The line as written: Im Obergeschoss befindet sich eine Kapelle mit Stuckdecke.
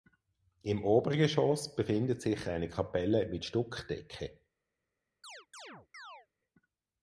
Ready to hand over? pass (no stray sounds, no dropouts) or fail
fail